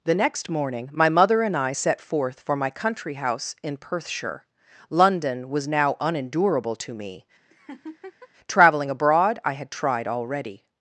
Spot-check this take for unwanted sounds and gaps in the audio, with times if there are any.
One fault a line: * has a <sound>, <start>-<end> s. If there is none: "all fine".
* has a laugh, 7.5-8.3 s